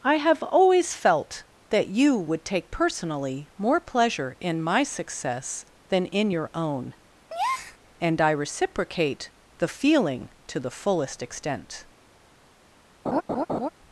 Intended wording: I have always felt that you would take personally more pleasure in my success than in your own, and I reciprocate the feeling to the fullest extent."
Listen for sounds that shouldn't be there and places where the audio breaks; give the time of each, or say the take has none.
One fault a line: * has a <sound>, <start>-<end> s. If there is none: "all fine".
* has a breath, 7.3-7.8 s
* has a laugh, 13.1-13.7 s